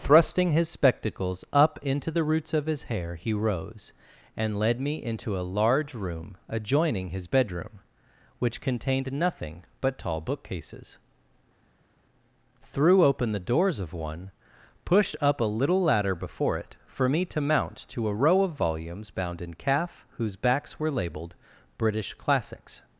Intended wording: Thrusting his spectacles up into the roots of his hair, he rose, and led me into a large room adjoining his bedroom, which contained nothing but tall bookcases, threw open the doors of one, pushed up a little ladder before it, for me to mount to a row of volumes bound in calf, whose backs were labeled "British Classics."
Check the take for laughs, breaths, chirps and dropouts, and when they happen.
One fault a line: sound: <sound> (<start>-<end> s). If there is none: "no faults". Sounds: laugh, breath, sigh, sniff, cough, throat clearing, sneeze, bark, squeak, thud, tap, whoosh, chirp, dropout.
no faults